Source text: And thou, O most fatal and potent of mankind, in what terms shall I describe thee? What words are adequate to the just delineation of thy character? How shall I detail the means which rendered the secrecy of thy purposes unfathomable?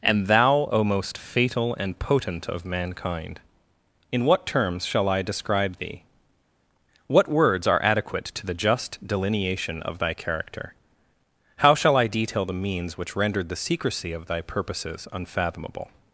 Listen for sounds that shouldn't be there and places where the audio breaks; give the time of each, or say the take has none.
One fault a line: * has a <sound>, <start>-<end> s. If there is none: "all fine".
all fine